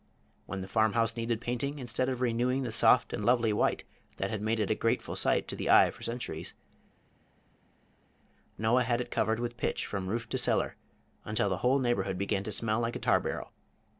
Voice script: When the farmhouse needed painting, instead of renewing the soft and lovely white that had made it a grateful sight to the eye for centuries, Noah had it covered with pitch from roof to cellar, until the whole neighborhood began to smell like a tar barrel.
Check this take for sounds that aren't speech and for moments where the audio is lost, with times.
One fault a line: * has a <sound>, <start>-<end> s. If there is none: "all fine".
all fine